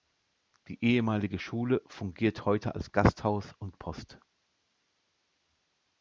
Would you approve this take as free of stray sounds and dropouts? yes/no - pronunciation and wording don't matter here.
yes